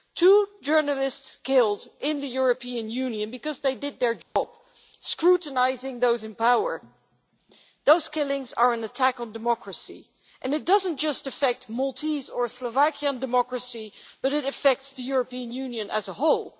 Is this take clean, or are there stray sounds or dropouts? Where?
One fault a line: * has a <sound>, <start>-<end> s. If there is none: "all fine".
* has a dropout, 4.2-4.4 s